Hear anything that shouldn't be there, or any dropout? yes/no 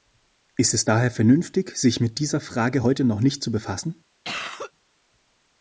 yes